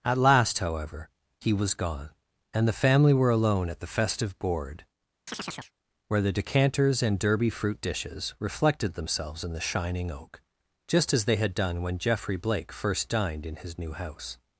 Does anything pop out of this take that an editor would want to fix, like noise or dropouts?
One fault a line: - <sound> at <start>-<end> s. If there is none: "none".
- chirp at 5.3-5.7 s